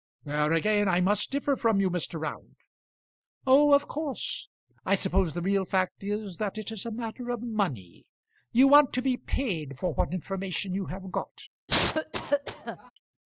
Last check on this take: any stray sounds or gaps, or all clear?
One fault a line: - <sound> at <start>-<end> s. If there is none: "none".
- cough at 11.7-12.9 s